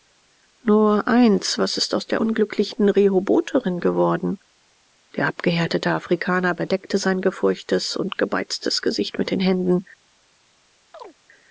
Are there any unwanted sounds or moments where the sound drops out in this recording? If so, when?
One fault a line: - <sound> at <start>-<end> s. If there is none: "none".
- chirp at 10.9-11.2 s